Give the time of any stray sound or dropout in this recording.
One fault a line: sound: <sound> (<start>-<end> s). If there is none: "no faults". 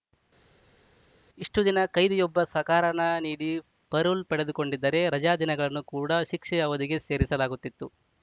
no faults